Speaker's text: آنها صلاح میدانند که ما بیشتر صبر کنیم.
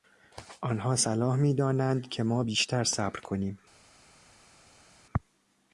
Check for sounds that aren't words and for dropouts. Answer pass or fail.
pass